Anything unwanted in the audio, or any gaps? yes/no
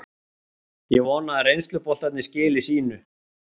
no